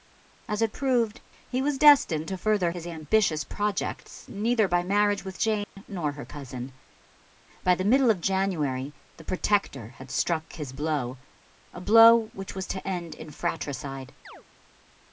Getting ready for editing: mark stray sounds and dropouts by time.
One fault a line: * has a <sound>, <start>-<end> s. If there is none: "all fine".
* has a dropout, 5.6-5.8 s
* has a chirp, 14.2-14.4 s